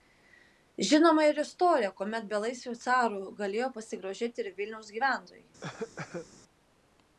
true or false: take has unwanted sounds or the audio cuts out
true